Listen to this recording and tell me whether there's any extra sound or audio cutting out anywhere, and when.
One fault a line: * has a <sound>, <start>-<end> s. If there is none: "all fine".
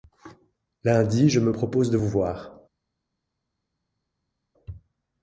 all fine